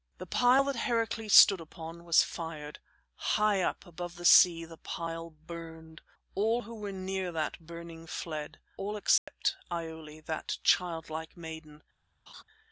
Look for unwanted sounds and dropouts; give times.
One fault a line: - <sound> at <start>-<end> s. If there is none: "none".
- dropout at 9.2-9.3 s
- laugh at 12.3-12.4 s